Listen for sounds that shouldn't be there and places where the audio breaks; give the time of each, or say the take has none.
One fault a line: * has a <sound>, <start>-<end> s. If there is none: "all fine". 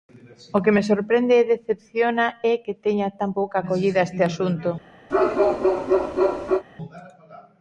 * has a bark, 5.1-6.6 s